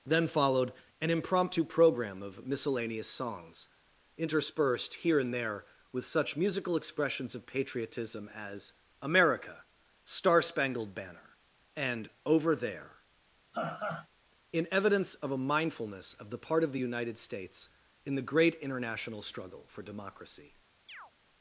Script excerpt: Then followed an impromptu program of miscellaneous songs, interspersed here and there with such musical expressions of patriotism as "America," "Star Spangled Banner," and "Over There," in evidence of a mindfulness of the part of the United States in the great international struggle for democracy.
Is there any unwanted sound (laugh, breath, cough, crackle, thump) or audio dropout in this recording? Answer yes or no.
yes